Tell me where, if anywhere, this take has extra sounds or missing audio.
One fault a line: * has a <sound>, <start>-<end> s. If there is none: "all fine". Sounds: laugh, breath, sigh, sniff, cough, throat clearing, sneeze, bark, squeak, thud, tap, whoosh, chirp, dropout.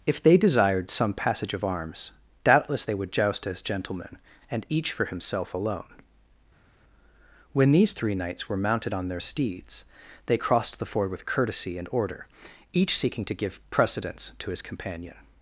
all fine